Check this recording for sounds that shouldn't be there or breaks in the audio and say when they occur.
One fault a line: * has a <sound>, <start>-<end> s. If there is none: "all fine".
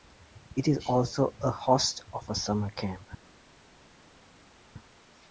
all fine